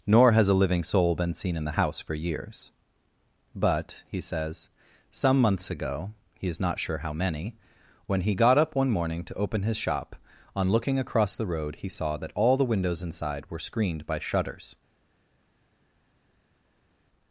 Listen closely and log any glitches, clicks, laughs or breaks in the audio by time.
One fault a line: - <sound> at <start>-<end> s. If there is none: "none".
none